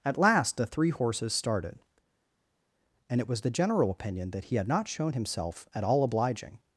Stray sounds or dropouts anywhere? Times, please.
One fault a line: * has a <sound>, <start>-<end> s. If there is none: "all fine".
all fine